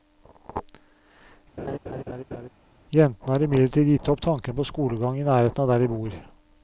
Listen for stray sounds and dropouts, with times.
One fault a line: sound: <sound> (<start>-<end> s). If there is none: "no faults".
sound: laugh (1.6-2.5 s)